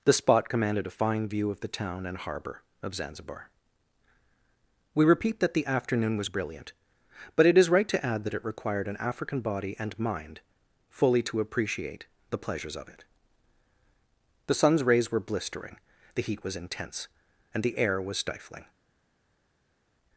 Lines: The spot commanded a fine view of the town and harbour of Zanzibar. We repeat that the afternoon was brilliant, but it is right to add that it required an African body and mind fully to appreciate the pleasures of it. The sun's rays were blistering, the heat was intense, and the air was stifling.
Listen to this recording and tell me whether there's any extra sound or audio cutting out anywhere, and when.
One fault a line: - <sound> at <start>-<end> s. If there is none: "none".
none